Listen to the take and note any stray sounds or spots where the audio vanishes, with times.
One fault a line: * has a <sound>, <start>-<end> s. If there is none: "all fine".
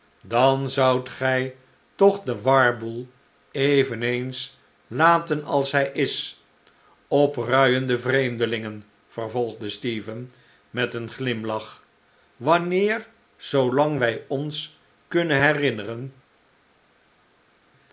all fine